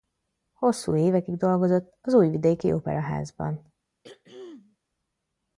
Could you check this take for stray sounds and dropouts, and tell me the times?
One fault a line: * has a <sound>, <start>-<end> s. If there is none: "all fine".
* has a throat clearing, 4.0-4.8 s